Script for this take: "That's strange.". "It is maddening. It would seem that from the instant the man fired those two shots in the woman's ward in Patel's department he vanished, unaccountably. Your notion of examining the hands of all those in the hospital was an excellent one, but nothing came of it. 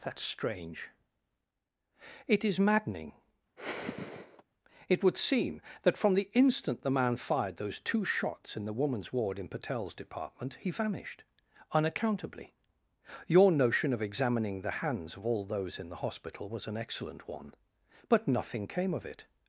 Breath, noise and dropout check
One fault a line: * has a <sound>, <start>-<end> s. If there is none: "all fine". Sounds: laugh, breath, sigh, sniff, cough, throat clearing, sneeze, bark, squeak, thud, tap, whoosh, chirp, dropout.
* has a sigh, 3.6-4.4 s